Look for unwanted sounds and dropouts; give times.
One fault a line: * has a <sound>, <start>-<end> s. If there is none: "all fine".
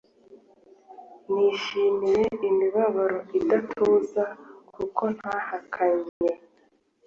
* has a dropout, 6.1-6.2 s